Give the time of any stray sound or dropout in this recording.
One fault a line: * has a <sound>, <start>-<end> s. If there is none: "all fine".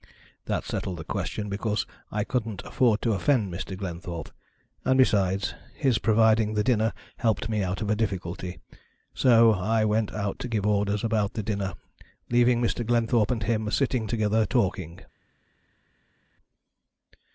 all fine